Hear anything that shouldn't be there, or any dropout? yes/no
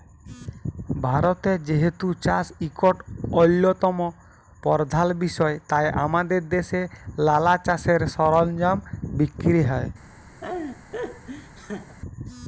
yes